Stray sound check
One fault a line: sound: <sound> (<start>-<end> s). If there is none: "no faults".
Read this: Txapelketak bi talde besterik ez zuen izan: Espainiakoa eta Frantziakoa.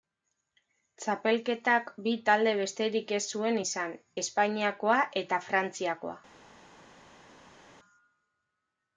no faults